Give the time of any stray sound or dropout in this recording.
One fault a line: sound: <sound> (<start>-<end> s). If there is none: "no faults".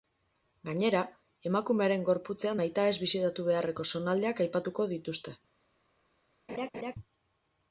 sound: laugh (6.5-7.0 s)